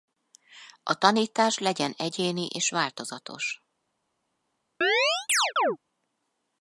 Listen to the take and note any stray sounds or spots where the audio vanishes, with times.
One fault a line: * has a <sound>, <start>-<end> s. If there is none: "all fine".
* has a chirp, 4.8-5.8 s